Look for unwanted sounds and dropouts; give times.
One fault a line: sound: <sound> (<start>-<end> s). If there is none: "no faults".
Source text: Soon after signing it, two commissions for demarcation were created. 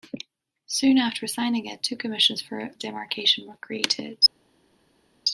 no faults